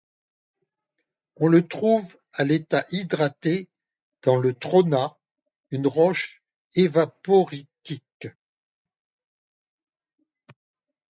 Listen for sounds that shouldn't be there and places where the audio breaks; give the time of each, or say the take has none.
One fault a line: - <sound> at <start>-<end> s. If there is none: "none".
none